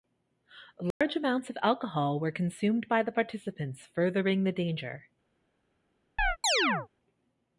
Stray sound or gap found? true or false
true